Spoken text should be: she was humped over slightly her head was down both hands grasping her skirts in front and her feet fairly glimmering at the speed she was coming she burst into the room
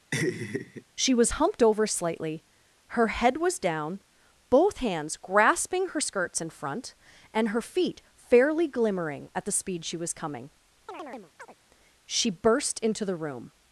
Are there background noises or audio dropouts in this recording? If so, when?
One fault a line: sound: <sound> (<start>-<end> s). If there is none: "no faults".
sound: laugh (0.1-0.8 s)
sound: chirp (10.9-11.6 s)